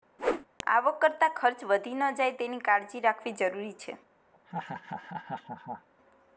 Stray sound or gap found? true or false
true